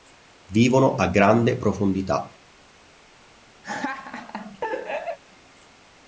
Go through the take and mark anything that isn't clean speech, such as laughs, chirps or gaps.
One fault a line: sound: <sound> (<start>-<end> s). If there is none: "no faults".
sound: laugh (3.6-5.2 s)